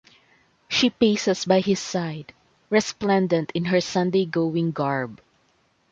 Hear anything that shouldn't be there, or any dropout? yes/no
no